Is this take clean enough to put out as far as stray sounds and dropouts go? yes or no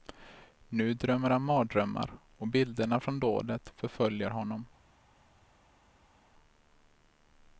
yes